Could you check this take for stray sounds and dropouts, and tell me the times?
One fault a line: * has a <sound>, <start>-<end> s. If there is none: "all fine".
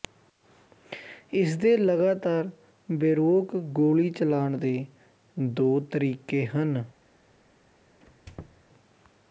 * has a squeak, 8.0-8.6 s